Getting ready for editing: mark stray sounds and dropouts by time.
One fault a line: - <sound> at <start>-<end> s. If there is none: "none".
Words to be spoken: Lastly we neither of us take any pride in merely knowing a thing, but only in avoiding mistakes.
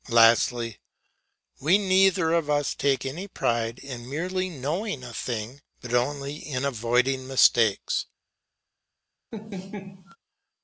- laugh at 9.3-10.2 s